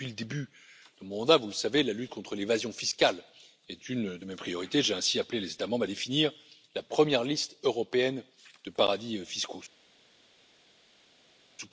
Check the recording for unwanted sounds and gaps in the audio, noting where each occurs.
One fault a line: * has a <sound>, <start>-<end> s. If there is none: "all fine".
all fine